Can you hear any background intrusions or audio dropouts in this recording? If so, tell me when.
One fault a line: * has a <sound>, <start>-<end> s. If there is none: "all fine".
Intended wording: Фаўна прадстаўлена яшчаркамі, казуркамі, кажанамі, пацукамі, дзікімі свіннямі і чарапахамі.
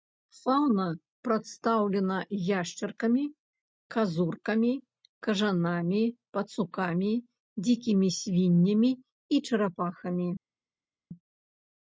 all fine